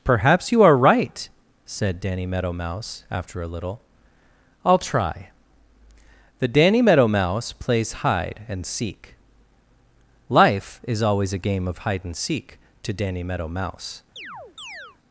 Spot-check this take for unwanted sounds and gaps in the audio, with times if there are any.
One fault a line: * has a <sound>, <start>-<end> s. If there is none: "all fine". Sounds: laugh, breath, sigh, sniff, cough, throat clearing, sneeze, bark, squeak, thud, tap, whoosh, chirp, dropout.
* has a chirp, 14.2-15.0 s